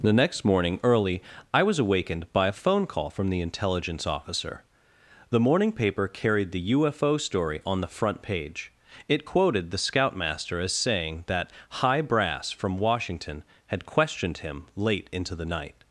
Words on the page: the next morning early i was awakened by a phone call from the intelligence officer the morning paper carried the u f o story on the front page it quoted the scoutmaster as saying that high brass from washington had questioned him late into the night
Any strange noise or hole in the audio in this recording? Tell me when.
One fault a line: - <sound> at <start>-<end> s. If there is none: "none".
none